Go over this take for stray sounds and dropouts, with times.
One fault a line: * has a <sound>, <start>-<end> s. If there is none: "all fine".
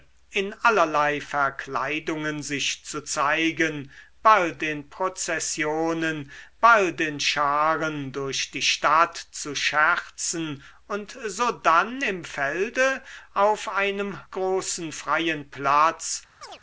* has a chirp, 16.4-16.6 s